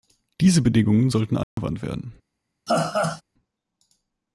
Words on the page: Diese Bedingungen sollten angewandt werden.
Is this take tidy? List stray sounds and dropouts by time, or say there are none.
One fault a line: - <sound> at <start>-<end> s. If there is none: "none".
- dropout at 1.4-1.6 s
- laugh at 2.7-3.2 s